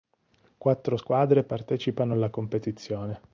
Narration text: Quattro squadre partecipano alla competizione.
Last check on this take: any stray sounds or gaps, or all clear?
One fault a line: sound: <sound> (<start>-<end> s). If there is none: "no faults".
no faults